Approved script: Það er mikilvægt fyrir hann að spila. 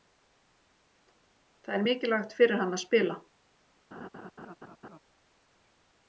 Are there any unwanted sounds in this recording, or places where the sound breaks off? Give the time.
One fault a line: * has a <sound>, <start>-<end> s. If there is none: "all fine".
* has a laugh, 3.9-5.0 s